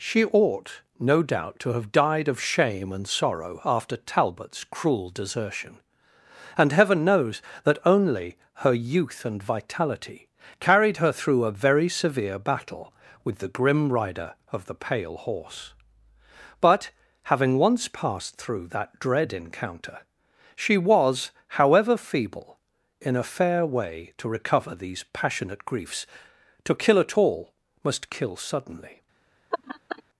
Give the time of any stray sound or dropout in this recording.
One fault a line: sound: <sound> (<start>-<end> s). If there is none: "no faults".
sound: laugh (29.5-30.0 s)